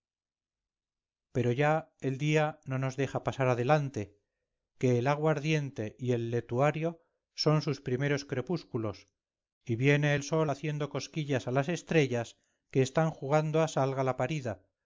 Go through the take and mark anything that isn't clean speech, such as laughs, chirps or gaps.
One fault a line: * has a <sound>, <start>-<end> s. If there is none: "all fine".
all fine